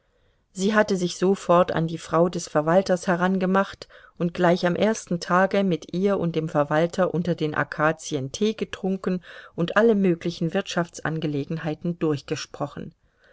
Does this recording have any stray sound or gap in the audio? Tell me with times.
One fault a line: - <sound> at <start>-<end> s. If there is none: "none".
none